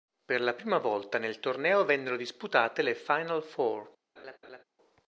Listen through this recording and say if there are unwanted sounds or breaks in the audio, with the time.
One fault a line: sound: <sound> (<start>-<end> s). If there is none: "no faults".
sound: laugh (4.2-4.6 s)